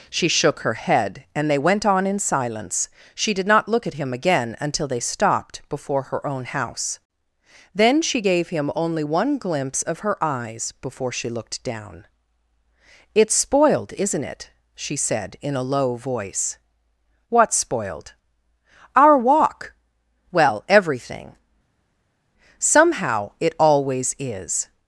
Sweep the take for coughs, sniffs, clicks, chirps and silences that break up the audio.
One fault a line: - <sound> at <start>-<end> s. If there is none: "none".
none